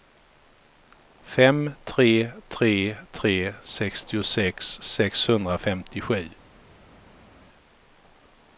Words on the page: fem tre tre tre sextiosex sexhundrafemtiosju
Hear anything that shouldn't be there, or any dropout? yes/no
no